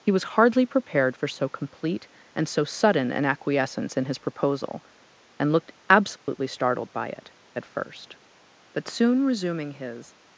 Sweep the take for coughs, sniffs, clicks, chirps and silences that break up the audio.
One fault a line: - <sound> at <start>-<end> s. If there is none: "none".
- dropout at 6.2-6.3 s